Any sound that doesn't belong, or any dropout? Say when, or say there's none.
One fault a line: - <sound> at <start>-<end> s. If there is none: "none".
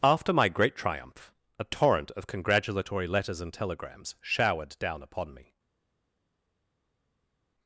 none